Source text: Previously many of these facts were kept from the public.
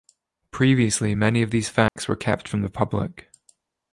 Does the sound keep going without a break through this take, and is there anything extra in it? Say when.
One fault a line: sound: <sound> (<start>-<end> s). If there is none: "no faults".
sound: dropout (1.9-2.0 s)